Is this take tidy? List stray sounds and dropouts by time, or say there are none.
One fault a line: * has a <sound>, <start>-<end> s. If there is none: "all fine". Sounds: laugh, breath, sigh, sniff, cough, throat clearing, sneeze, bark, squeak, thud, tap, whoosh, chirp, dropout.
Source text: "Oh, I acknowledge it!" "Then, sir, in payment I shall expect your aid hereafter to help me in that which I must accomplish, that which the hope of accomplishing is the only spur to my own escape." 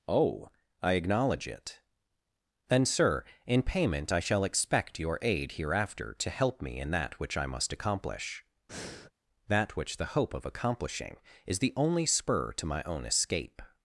* has a breath, 8.7-9.1 s